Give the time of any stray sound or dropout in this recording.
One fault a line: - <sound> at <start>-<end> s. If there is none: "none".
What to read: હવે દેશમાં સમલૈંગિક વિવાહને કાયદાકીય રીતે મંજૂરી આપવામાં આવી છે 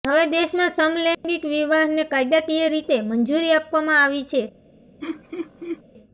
- dropout at 1.1-1.2 s
- laugh at 5.0-5.8 s